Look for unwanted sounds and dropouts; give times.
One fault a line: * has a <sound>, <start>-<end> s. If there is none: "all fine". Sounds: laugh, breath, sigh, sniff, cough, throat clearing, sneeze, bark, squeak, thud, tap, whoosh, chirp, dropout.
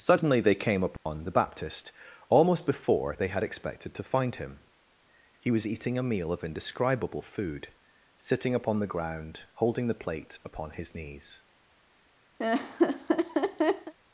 * has a dropout, 1.0-1.1 s
* has a laugh, 12.4-13.9 s